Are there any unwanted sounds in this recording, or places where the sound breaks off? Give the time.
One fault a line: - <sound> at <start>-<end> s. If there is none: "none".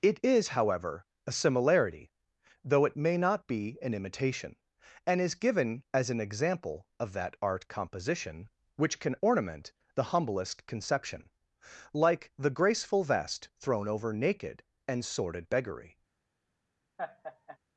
- laugh at 17.0-17.6 s